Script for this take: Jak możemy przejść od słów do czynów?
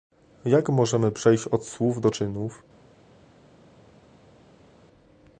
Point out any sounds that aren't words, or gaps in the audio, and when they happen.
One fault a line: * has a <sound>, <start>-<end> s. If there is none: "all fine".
all fine